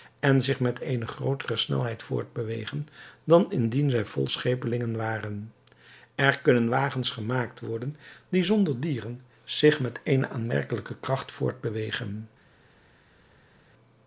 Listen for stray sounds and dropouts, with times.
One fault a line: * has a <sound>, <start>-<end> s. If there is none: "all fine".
all fine